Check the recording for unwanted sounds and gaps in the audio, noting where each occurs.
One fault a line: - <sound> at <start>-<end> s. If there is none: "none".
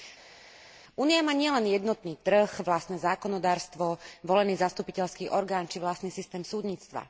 none